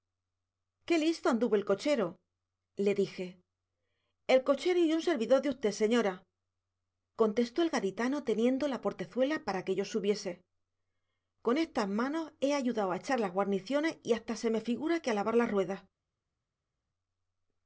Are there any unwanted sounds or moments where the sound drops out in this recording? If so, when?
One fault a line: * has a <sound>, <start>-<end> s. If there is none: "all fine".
all fine